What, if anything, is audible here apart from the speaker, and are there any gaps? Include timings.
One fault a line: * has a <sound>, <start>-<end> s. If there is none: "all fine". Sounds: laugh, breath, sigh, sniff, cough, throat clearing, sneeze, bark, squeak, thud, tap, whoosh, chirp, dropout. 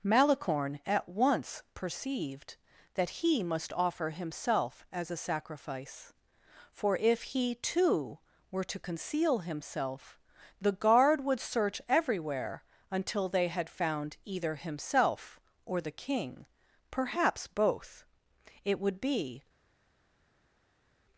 all fine